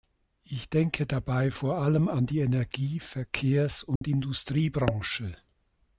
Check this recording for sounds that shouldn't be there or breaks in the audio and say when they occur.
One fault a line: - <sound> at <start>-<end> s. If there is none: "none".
- dropout at 4.0-4.0 s